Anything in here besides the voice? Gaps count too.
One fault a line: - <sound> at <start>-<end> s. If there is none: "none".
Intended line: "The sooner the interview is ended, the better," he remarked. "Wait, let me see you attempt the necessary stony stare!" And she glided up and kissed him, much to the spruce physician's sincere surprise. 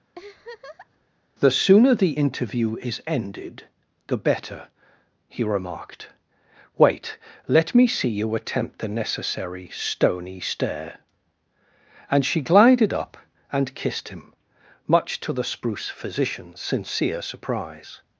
- laugh at 0.1-1.1 s